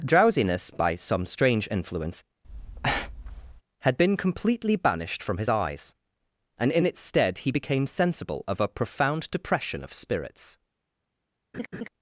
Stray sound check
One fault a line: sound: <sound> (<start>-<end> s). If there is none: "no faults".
sound: breath (2.4-3.6 s)
sound: laugh (11.5-11.9 s)